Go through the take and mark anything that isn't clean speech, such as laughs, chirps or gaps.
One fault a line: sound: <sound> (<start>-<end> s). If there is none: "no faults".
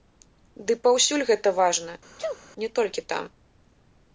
sound: sneeze (2.2-2.4 s)